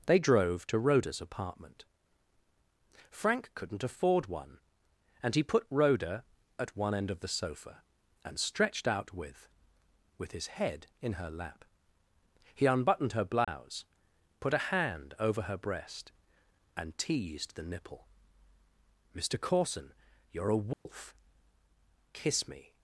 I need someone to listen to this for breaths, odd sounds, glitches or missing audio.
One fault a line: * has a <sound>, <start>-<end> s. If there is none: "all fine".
* has a dropout, 13.4-13.5 s
* has a dropout, 20.7-20.9 s